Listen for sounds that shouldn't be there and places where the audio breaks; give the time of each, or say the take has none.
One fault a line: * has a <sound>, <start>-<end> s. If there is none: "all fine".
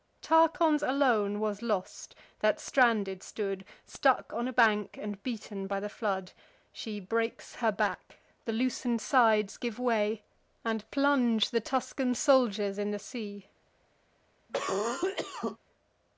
* has a cough, 14.5-15.6 s